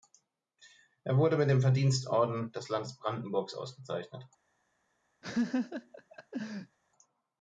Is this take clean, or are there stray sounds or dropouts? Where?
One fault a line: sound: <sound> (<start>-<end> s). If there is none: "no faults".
sound: laugh (5.2-6.8 s)